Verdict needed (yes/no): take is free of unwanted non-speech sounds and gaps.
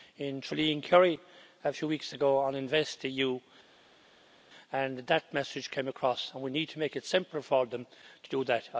yes